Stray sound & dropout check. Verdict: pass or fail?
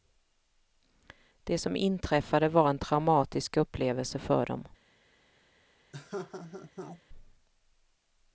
fail